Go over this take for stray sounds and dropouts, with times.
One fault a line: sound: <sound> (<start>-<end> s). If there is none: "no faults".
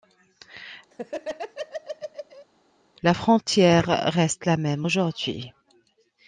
sound: laugh (0.9-2.5 s)